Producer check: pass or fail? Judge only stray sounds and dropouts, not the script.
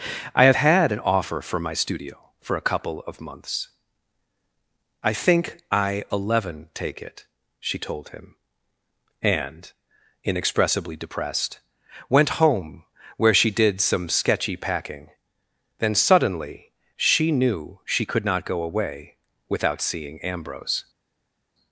pass